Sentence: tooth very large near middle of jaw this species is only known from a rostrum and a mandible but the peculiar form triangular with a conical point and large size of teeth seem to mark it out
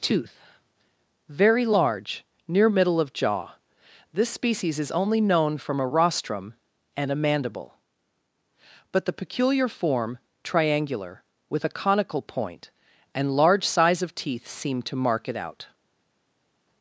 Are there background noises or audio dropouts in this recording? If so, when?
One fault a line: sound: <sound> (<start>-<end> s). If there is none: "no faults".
no faults